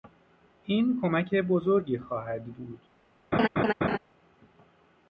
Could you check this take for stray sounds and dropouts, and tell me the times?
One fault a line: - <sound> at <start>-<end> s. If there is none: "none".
- laugh at 3.3-4.0 s